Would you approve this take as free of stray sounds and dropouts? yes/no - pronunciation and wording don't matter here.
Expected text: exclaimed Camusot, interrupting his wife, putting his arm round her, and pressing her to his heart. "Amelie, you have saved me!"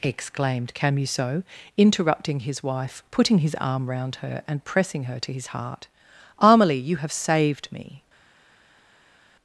yes